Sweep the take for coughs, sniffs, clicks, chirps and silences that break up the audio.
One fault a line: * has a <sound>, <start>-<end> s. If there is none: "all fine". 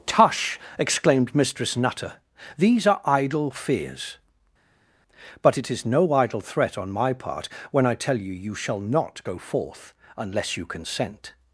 all fine